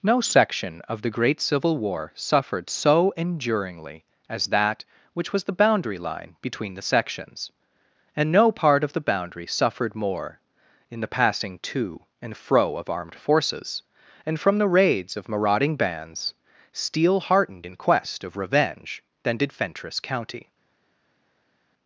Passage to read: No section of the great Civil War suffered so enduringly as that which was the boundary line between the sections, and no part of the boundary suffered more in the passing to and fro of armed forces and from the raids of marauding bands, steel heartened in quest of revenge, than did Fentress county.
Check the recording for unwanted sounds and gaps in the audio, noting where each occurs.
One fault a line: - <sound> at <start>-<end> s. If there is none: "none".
none